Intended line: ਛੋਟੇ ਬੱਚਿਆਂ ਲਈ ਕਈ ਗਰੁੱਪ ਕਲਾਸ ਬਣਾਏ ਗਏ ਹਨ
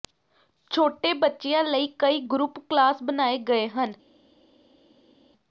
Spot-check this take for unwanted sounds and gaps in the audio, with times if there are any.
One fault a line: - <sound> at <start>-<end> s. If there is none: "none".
none